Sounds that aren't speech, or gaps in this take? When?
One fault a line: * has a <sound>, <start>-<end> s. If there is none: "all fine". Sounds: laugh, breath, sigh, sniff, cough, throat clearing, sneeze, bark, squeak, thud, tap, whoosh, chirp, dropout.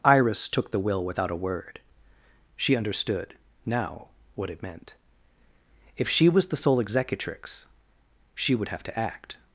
all fine